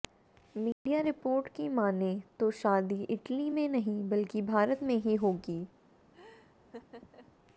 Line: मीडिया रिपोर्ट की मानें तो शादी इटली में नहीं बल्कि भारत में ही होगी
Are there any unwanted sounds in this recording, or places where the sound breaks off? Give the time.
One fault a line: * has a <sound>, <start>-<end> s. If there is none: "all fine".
* has a dropout, 0.7-0.9 s
* has a laugh, 6.1-7.4 s